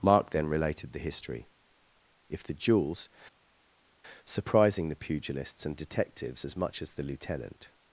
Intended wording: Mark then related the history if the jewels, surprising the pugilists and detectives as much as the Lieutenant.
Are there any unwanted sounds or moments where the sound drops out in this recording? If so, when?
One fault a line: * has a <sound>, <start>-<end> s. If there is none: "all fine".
all fine